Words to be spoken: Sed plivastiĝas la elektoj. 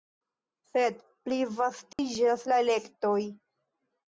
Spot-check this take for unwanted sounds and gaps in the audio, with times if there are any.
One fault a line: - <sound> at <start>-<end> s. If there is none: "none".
- dropout at 1.9-2.0 s